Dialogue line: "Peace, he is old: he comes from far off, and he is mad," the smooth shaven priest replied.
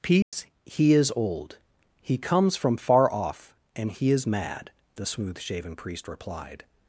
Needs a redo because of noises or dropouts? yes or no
yes